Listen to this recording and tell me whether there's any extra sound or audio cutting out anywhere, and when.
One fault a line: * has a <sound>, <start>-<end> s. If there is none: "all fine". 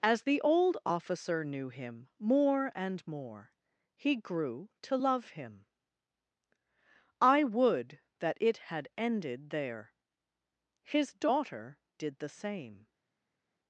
all fine